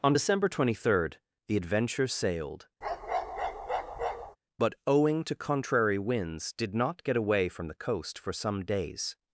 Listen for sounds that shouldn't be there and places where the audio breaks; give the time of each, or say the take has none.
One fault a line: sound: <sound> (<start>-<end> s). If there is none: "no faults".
sound: bark (2.8-4.4 s)